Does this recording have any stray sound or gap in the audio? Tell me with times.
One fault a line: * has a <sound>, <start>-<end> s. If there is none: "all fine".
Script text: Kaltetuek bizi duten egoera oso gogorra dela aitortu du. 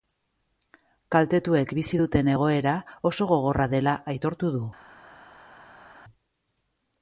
all fine